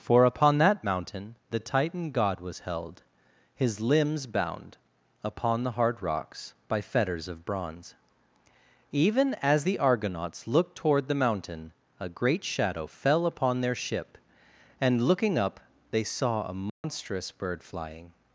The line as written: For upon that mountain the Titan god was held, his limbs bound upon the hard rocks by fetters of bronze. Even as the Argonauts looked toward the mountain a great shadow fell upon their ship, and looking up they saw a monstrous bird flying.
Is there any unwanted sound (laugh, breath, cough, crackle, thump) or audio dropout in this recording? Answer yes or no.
yes